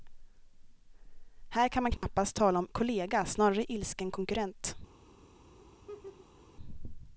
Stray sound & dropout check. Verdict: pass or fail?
fail